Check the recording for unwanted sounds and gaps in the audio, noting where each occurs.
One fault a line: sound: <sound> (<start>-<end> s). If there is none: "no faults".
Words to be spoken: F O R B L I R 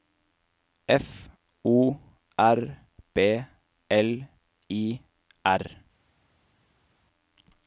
no faults